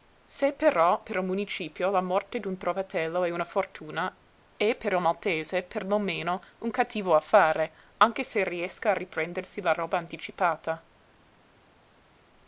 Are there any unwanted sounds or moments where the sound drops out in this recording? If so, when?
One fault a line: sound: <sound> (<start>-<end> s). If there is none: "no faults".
no faults